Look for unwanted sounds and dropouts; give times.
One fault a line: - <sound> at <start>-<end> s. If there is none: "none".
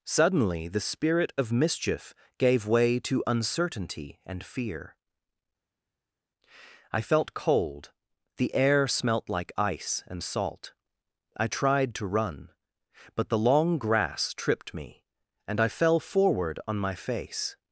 none